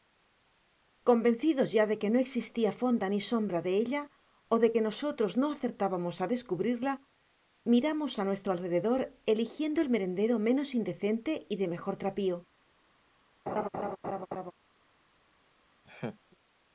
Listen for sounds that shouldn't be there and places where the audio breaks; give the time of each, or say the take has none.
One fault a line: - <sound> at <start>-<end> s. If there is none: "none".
- laugh at 13.5-14.5 s
- laugh at 15.8-16.2 s